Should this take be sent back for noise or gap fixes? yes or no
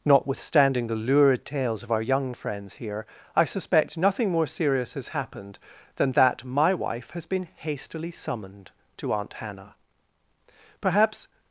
no